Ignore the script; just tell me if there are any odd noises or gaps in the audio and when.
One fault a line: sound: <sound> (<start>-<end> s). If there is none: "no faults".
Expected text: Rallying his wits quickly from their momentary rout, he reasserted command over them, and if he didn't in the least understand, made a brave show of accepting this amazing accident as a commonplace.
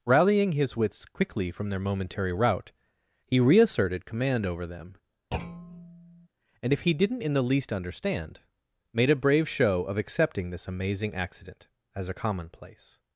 sound: thud (5.3-6.3 s)